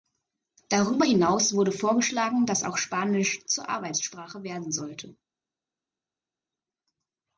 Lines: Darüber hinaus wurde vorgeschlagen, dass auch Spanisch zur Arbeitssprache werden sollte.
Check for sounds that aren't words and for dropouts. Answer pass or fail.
pass